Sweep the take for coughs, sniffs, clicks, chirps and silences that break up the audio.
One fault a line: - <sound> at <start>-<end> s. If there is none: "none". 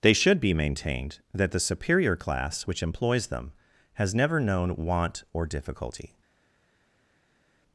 none